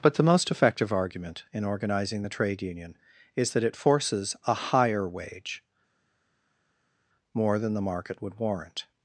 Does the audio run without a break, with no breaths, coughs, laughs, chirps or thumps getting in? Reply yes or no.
yes